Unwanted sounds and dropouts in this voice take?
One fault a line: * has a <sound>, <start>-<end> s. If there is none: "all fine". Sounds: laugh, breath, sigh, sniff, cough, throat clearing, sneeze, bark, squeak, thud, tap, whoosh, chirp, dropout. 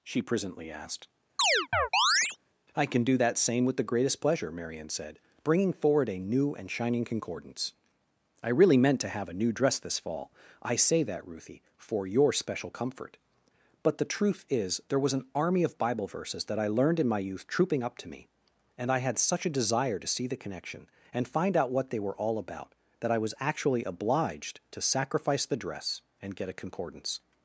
* has a chirp, 1.4-2.4 s